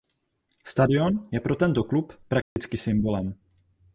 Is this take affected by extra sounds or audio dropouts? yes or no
yes